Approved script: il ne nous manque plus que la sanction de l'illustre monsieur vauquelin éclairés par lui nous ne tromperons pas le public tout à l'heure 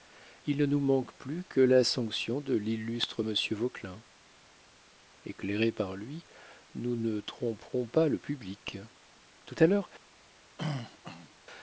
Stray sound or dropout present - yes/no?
yes